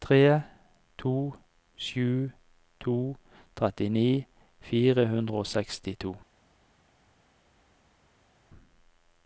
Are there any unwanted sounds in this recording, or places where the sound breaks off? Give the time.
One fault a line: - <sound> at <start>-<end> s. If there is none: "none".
none